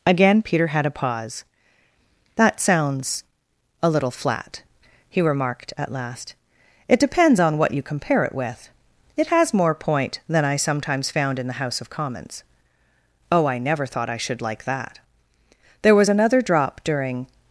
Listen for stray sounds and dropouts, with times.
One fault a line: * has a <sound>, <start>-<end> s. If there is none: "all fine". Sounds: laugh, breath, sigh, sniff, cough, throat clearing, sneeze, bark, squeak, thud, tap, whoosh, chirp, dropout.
all fine